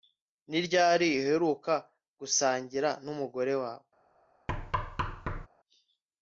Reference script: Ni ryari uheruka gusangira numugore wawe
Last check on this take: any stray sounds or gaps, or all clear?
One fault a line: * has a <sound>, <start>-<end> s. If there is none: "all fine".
* has a thud, 4.5-5.5 s